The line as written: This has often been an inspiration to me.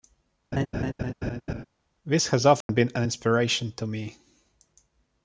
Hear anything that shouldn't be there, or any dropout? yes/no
yes